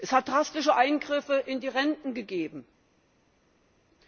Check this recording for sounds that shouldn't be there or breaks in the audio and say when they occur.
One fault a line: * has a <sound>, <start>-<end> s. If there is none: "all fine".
all fine